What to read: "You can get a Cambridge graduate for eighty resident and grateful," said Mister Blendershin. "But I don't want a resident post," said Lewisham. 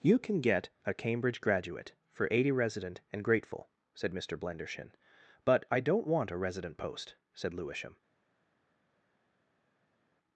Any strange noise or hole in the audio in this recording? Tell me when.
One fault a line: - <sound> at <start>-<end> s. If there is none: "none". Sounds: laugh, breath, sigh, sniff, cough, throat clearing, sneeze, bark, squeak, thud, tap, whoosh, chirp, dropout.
none